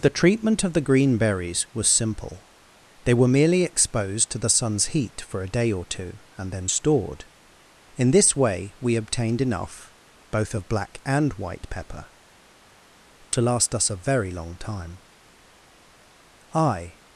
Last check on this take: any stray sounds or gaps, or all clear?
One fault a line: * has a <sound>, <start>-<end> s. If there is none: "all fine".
all fine